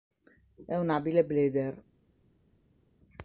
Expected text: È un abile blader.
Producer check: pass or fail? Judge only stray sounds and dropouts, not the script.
pass